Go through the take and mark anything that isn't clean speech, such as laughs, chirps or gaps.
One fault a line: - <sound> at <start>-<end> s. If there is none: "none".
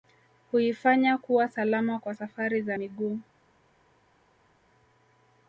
none